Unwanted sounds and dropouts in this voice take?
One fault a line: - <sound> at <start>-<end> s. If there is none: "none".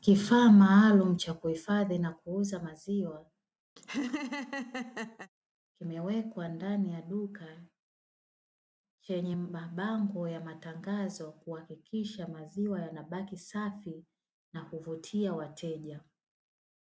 - laugh at 3.8-5.3 s